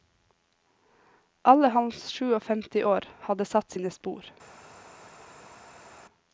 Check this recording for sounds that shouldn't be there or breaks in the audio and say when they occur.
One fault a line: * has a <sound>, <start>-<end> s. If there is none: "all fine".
all fine